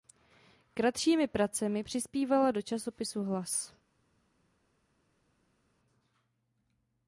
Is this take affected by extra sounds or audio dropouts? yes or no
no